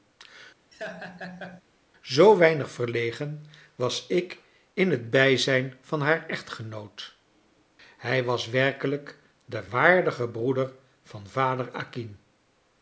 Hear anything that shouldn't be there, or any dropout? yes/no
yes